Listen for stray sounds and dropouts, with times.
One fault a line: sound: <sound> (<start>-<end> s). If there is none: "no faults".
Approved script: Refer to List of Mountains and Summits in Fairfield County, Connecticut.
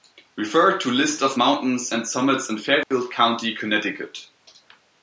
sound: dropout (2.8-2.9 s)